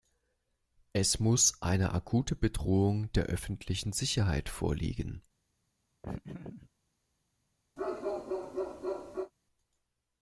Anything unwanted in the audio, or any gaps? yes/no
yes